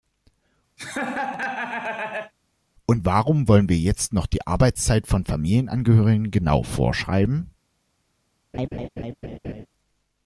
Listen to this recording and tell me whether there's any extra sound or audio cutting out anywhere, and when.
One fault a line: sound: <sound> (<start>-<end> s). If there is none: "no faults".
sound: laugh (0.8-2.3 s)
sound: laugh (8.5-9.7 s)